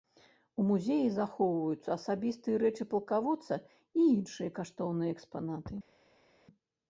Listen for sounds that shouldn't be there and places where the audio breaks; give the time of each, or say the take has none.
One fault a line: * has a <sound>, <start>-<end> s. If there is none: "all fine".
all fine